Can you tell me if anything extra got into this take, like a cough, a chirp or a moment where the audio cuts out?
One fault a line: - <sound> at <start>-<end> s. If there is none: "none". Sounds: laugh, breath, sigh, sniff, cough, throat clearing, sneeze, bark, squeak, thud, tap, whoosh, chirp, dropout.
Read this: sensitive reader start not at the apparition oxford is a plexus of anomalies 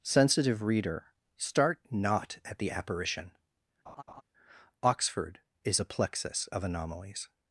- laugh at 3.9-4.2 s